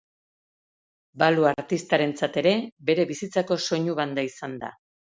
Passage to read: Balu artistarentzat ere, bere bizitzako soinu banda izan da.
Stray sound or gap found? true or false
false